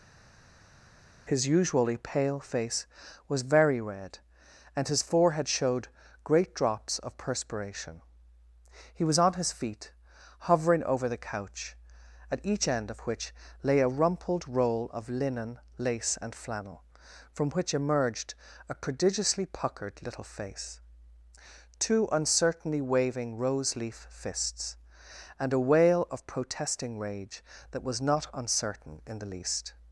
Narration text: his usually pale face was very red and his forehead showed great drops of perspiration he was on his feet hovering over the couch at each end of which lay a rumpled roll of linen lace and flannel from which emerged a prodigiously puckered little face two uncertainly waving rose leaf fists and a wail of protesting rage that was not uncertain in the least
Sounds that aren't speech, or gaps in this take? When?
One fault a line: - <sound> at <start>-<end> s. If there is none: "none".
none